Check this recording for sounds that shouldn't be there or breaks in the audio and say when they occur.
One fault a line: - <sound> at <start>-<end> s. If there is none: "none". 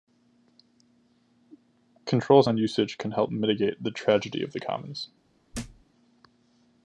- thud at 5.5-5.8 s